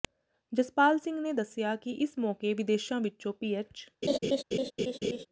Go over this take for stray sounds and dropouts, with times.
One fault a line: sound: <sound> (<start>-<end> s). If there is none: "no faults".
sound: laugh (4.0-5.3 s)